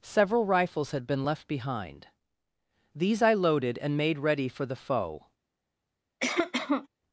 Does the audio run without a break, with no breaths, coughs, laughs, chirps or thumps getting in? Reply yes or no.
no